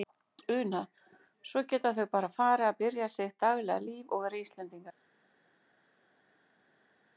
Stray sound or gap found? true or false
false